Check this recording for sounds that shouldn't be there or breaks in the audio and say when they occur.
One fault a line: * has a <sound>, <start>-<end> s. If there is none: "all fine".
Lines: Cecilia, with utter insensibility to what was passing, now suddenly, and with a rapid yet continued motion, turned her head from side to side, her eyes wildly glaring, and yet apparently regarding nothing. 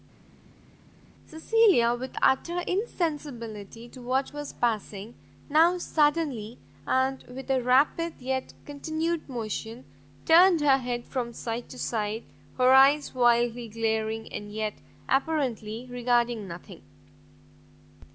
all fine